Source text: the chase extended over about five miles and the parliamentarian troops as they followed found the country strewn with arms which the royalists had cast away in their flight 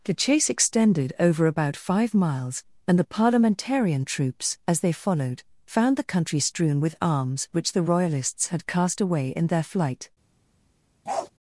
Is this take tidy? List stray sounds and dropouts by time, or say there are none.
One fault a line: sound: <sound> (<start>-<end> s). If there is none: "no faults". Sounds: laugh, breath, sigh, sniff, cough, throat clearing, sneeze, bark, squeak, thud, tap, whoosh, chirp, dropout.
sound: bark (11.1-11.3 s)